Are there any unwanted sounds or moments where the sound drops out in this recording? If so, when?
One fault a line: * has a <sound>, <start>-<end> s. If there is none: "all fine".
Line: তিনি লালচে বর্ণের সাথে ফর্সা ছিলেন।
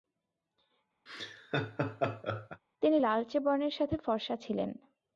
* has a laugh, 1.1-2.6 s